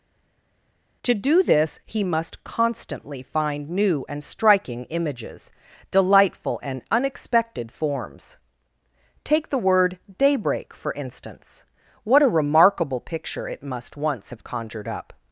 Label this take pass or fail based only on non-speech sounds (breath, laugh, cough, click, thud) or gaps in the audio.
pass